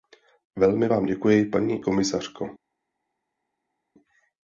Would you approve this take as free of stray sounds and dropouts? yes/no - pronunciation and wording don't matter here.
yes